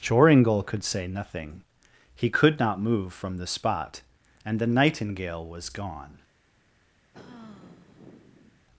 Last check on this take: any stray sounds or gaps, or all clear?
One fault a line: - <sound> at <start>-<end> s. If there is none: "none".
- sigh at 7.1-8.7 s